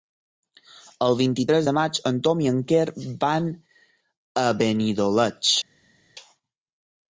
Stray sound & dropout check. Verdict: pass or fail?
pass